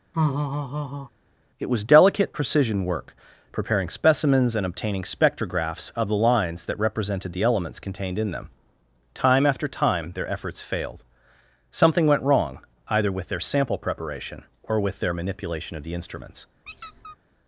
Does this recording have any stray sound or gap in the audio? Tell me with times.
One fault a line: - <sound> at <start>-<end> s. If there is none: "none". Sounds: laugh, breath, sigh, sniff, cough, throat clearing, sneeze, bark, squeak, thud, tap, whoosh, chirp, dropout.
- laugh at 0.1-1.1 s
- squeak at 16.7-17.2 s